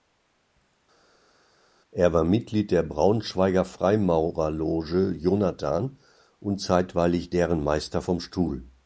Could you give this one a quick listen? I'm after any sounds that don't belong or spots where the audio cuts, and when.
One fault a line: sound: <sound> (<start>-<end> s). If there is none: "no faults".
no faults